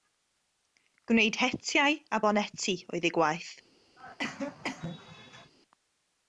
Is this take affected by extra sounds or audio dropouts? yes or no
yes